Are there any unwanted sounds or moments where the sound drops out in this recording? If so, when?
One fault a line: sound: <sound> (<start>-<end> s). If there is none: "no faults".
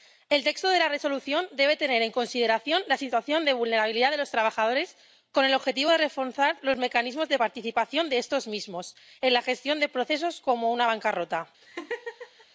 sound: laugh (11.6-12.5 s)